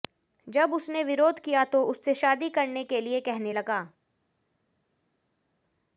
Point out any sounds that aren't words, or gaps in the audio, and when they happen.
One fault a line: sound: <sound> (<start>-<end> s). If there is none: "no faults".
no faults